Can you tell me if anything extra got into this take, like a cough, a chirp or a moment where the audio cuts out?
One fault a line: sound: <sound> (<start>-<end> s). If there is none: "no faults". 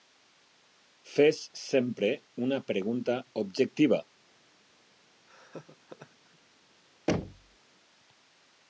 sound: laugh (5.3-6.4 s)
sound: thud (7.1-7.6 s)